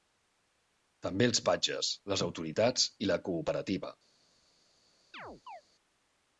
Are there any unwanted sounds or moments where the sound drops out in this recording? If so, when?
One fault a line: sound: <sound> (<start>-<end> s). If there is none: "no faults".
sound: chirp (5.1-5.6 s)